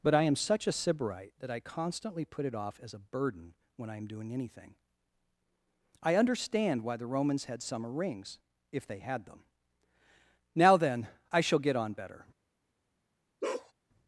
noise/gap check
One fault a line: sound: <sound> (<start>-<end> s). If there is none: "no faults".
sound: bark (13.4-13.7 s)